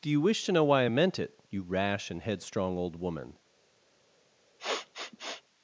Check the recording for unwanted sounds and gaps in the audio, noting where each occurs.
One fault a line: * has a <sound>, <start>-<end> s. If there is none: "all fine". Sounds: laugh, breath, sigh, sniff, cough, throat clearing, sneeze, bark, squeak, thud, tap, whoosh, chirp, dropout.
* has a sniff, 4.6-5.4 s